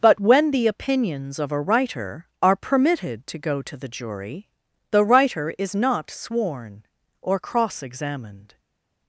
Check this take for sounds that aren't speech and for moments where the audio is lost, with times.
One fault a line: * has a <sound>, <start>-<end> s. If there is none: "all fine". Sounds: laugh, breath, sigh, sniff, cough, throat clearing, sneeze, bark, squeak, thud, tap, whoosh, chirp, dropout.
all fine